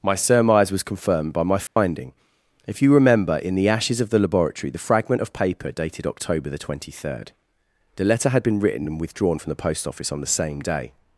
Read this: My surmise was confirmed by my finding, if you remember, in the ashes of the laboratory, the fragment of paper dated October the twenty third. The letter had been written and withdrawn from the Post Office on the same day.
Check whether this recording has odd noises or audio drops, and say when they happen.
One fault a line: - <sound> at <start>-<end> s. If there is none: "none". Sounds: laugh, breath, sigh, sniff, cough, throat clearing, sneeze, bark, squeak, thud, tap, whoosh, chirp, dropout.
- dropout at 1.7-1.8 s